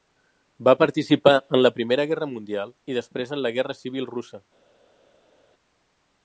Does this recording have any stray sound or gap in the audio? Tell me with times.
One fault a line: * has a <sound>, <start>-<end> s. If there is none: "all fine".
all fine